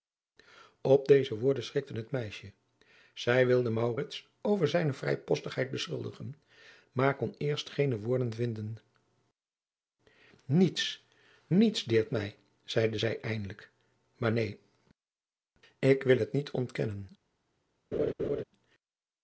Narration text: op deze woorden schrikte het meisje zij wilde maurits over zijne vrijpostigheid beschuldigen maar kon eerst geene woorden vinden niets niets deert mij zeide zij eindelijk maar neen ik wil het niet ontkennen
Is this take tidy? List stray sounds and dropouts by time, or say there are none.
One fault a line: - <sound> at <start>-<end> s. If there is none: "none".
- laugh at 17.9-18.4 s